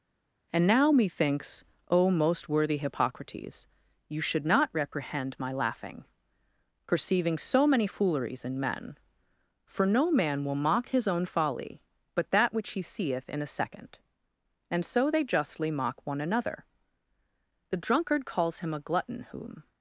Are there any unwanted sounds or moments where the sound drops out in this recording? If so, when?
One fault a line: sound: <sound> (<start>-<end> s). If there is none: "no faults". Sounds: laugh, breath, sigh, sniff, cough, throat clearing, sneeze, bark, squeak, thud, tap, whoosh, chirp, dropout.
no faults